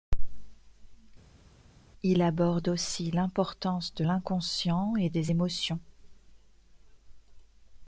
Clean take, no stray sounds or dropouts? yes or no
yes